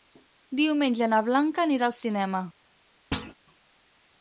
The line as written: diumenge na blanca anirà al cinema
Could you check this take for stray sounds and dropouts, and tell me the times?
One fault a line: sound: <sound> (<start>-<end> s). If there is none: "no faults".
sound: thud (3.1-3.3 s)